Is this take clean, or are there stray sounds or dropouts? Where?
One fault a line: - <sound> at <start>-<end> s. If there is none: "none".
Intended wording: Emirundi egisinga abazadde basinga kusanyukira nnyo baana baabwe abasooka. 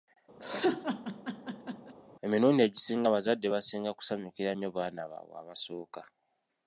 - laugh at 0.4-1.9 s